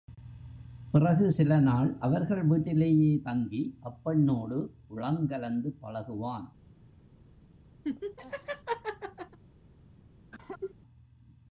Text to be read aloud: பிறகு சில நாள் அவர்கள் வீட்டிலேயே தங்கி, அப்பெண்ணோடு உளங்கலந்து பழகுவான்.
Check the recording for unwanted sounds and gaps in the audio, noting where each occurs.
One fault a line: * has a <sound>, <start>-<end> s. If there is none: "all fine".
* has a laugh, 7.8-9.4 s
* has a cough, 10.3-10.7 s